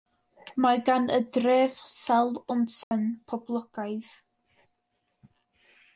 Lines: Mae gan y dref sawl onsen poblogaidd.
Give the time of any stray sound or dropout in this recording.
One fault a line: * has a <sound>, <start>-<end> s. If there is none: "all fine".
* has a dropout, 2.8-2.9 s